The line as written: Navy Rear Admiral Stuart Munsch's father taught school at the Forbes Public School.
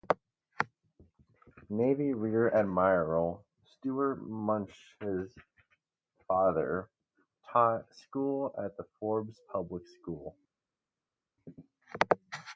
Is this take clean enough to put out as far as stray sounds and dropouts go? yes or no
yes